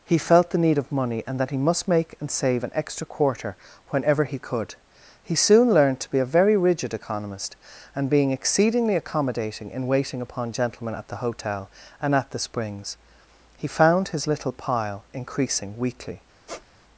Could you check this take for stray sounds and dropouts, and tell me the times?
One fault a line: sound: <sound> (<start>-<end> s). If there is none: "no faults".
sound: squeak (16.5-16.7 s)